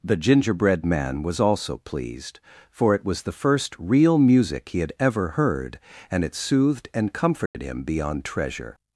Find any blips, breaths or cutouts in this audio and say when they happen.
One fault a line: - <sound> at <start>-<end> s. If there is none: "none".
- dropout at 7.5-7.5 s